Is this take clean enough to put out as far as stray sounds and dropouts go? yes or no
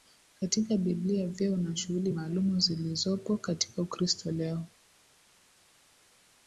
yes